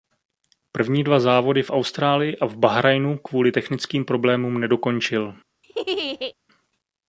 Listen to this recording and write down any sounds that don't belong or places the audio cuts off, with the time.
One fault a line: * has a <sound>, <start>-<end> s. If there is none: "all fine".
* has a laugh, 5.6-6.3 s